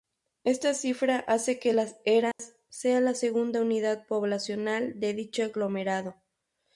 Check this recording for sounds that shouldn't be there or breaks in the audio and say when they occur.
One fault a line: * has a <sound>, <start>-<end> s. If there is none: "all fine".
* has a dropout, 2.3-2.4 s